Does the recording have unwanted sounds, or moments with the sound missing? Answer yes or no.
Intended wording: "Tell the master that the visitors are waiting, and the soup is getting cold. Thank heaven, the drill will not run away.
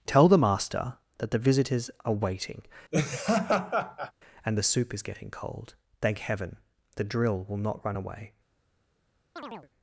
yes